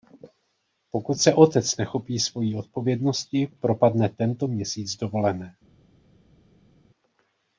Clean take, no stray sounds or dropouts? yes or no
yes